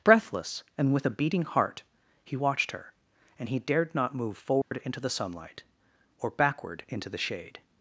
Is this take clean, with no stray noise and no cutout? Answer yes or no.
no